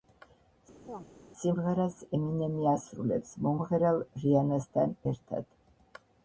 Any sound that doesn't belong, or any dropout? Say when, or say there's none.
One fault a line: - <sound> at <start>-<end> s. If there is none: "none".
- chirp at 0.9-1.1 s